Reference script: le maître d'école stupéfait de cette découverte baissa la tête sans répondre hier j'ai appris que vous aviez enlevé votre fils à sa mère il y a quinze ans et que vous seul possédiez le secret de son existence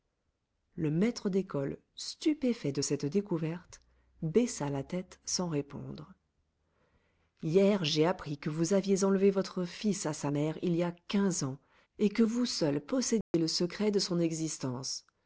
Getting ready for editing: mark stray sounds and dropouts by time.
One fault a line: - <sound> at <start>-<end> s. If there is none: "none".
- dropout at 13.2-13.3 s